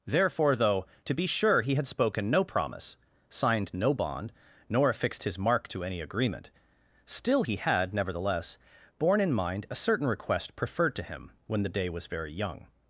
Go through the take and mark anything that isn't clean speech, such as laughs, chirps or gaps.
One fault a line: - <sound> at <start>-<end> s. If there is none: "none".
none